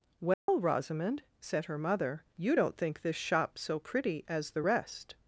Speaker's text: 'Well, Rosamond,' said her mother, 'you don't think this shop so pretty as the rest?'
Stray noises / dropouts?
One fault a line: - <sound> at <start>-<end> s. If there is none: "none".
- dropout at 0.3-0.5 s